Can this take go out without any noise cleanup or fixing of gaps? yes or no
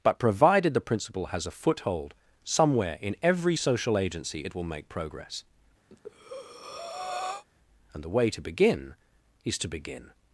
no